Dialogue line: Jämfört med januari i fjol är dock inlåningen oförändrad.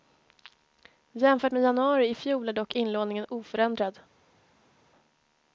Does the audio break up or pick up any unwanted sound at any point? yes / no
no